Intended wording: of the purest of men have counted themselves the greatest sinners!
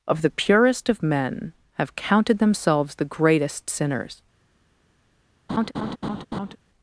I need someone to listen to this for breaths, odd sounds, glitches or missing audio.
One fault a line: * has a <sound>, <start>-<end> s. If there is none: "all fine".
* has a laugh, 5.5-6.6 s